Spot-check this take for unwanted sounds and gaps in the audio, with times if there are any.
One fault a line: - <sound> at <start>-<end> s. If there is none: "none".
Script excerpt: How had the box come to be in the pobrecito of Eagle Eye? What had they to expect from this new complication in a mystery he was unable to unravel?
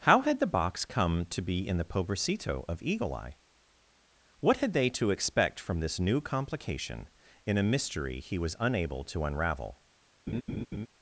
- laugh at 10.3-10.9 s